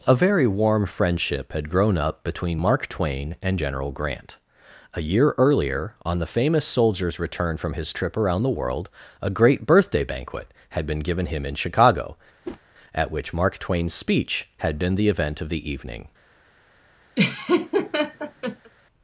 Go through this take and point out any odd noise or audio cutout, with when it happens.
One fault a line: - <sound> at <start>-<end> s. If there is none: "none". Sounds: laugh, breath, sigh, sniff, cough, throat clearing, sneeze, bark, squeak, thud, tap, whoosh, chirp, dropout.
- whoosh at 12.4-12.6 s
- laugh at 17.2-18.7 s